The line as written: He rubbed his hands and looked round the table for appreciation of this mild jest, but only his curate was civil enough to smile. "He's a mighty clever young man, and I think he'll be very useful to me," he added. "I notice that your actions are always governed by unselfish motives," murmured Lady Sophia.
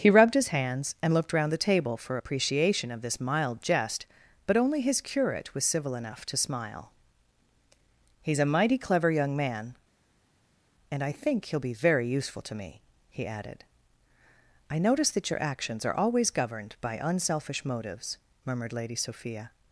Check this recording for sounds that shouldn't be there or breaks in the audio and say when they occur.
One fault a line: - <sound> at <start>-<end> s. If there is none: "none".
none